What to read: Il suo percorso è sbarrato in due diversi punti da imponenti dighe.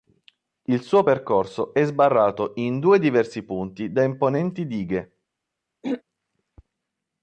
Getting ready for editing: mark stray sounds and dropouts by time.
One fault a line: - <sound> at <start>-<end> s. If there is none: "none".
- throat clearing at 5.8-6.0 s